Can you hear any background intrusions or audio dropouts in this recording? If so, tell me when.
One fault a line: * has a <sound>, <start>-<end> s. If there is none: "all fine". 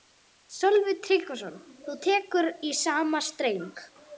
all fine